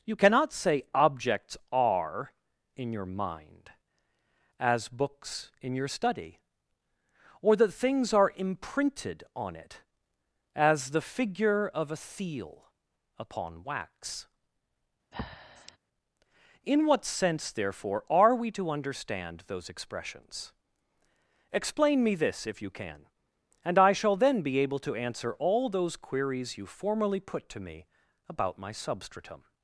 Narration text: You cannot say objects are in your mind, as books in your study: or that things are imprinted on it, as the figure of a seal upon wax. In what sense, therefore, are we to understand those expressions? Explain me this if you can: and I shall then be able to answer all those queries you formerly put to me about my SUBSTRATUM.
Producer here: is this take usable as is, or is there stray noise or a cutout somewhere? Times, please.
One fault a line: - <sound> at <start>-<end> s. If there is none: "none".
- breath at 15.1-15.8 s